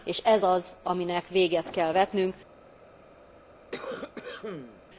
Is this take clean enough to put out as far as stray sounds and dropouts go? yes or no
no